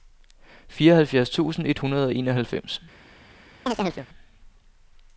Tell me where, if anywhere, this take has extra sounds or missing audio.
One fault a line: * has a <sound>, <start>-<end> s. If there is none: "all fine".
* has a chirp, 3.7-4.1 s